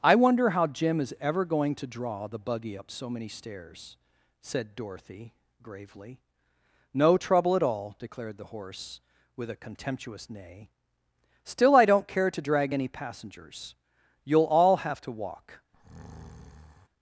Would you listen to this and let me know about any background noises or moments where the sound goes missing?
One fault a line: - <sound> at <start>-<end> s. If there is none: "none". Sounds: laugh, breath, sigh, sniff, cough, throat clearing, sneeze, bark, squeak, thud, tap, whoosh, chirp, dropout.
- breath at 15.7-16.9 s